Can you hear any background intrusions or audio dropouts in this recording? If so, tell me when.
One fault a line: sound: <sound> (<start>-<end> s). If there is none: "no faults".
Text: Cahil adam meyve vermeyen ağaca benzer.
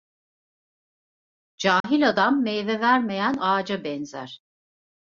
sound: dropout (1.8-1.8 s)